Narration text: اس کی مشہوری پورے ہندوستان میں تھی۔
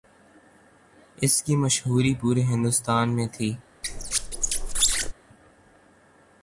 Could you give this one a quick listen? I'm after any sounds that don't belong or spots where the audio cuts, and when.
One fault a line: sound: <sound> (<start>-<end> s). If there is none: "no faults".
sound: squeak (3.8-5.1 s)